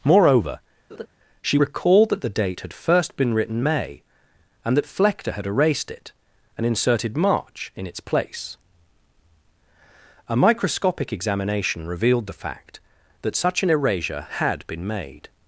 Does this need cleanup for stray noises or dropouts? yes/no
yes